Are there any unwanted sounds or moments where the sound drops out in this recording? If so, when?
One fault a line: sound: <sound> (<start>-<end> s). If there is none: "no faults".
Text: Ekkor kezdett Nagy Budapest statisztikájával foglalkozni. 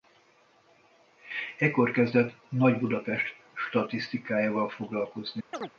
sound: chirp (5.5-5.7 s)